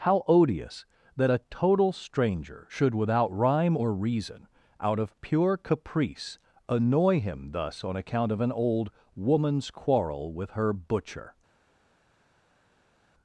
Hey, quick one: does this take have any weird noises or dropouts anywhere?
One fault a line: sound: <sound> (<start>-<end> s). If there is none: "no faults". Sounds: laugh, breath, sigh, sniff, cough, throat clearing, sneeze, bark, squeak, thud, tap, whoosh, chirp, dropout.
no faults